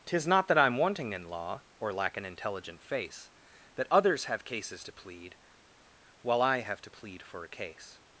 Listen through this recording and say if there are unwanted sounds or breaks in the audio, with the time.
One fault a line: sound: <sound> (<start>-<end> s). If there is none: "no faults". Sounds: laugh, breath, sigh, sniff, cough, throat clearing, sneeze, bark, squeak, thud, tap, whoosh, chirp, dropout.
no faults